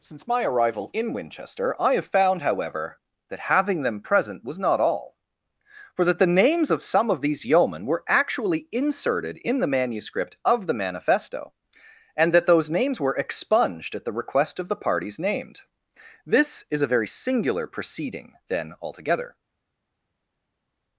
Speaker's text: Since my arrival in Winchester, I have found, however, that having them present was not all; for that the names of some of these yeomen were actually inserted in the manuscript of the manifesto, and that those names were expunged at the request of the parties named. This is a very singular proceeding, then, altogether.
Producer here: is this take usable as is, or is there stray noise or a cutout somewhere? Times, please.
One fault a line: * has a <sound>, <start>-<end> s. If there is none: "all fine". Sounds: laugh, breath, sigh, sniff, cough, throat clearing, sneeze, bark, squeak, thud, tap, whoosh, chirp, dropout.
all fine